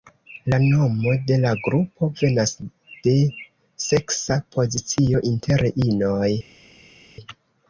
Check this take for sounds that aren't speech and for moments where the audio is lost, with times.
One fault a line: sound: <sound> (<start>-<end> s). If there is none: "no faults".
no faults